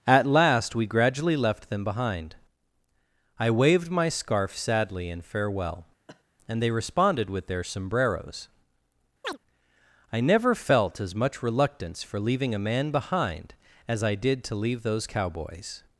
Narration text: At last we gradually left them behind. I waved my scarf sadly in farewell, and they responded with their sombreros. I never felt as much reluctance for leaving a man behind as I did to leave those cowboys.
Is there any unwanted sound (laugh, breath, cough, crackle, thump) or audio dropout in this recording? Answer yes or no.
yes